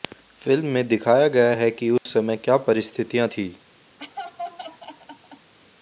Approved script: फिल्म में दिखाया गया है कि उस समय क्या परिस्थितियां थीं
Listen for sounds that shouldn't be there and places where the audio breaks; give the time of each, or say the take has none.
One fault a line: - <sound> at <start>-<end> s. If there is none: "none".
- dropout at 2.0-2.1 s
- laugh at 4.0-5.5 s